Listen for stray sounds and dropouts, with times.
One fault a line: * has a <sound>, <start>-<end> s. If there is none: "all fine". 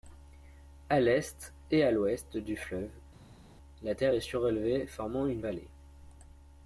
all fine